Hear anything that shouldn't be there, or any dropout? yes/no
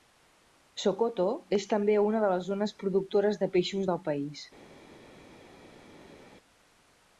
no